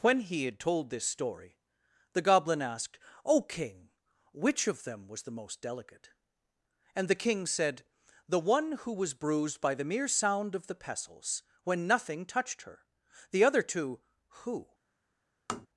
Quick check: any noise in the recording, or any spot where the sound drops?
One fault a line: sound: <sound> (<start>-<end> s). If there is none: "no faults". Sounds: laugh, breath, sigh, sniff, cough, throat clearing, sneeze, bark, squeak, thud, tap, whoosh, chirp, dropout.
sound: tap (15.5-15.7 s)